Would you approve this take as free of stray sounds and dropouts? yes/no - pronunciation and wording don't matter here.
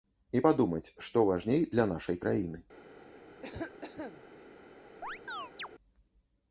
no